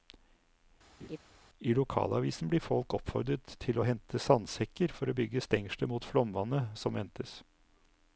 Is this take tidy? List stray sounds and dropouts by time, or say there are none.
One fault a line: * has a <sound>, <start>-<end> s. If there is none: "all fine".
* has a laugh, 1.0-1.2 s